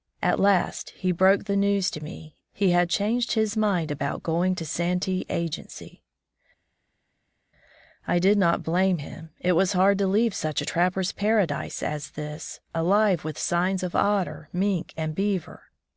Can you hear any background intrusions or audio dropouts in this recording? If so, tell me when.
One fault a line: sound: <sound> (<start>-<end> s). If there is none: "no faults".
no faults